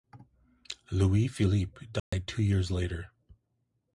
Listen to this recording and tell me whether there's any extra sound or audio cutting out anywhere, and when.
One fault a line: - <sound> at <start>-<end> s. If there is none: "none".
- dropout at 2.0-2.1 s